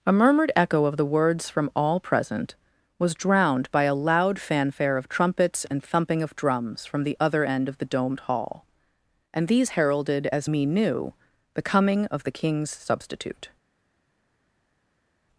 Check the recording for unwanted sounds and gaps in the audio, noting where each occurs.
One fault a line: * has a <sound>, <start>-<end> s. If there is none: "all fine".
all fine